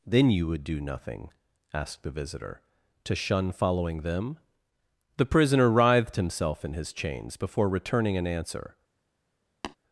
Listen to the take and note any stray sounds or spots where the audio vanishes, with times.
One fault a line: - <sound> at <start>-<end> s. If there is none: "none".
- tap at 9.6-9.8 s